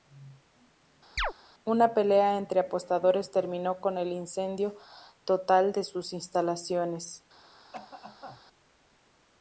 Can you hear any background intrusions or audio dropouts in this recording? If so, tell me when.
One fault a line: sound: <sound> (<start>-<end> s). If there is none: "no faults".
sound: chirp (1.2-1.3 s)
sound: cough (7.7-8.4 s)